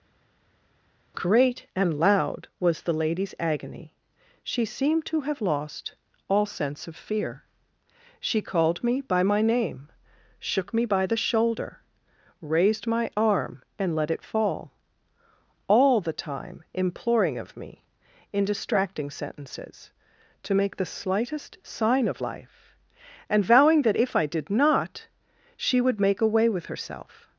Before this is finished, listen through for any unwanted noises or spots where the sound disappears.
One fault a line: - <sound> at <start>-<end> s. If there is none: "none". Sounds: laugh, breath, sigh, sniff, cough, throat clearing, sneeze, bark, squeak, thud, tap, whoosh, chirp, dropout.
none